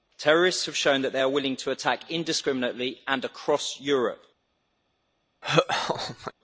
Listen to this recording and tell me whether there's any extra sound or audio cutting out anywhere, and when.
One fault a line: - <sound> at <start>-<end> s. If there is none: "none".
- laugh at 5.4-6.3 s